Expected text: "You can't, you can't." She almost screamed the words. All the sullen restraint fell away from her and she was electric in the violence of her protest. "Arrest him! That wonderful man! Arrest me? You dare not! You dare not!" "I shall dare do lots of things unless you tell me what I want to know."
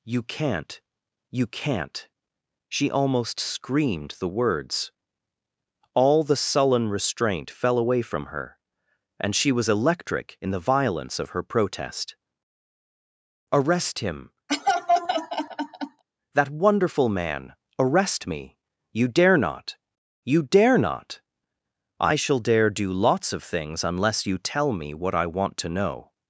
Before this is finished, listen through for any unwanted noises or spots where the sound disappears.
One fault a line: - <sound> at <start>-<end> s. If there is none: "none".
- laugh at 14.5-16.0 s